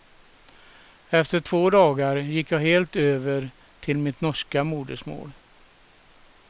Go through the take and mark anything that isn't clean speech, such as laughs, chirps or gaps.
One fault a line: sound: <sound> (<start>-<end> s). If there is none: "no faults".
no faults